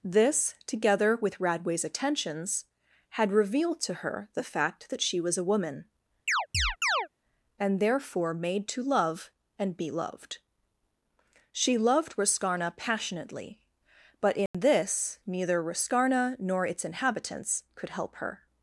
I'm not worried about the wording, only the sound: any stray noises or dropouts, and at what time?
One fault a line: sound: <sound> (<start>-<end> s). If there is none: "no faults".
sound: chirp (6.3-7.1 s)
sound: dropout (14.5-14.5 s)